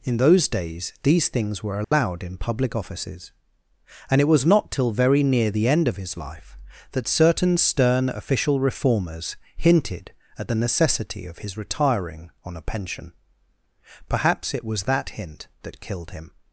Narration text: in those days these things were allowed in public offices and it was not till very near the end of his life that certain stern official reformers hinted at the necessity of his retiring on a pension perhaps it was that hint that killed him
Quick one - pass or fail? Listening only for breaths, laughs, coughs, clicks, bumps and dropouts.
fail